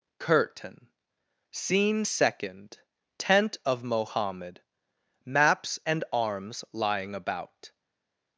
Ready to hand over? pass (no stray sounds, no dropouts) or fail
pass